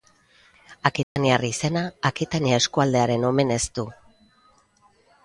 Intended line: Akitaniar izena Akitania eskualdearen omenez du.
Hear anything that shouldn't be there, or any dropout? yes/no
yes